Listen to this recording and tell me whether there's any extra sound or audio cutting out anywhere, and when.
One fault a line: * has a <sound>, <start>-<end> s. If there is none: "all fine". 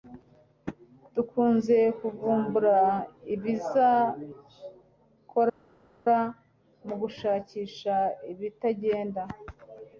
all fine